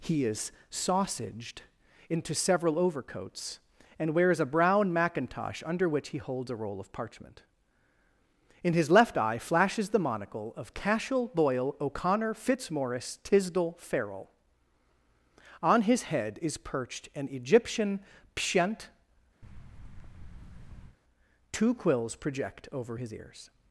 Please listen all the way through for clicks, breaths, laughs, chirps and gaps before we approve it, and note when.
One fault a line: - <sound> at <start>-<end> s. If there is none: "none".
- thud at 19.4-21.0 s